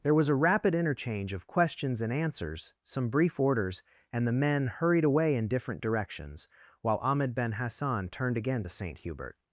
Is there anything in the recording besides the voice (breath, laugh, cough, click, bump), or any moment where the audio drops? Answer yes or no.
no